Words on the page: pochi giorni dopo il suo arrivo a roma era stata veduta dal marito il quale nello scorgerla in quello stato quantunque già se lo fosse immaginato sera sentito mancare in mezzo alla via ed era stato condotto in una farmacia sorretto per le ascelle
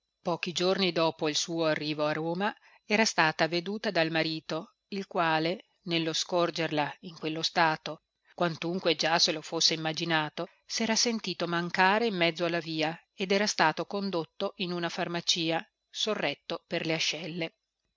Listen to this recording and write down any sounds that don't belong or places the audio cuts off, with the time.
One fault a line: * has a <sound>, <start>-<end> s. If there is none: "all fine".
all fine